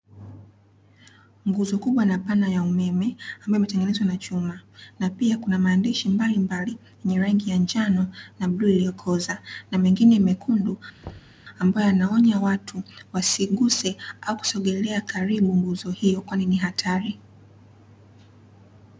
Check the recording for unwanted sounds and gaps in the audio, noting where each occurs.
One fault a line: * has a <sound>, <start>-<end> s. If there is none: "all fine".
* has a thud, 11.0-11.4 s